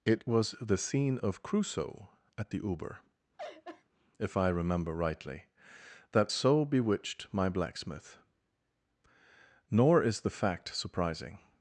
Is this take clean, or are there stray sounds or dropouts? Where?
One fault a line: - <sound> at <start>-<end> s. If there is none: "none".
- laugh at 3.4-3.8 s